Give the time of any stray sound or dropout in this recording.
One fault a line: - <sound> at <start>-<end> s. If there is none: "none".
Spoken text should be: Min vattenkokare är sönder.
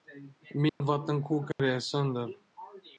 - dropout at 0.7-0.8 s
- dropout at 1.5-1.6 s